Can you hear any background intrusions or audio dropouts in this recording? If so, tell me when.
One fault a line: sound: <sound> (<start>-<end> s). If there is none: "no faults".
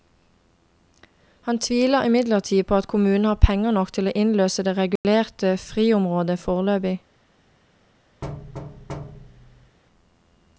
sound: dropout (5.0-5.0 s)
sound: thud (8.2-9.8 s)